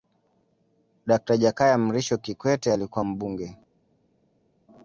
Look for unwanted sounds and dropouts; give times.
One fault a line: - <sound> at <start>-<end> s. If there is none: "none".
none